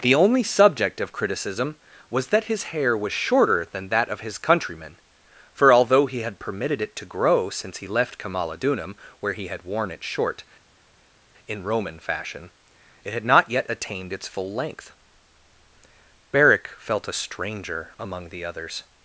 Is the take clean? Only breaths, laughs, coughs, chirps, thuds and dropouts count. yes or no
yes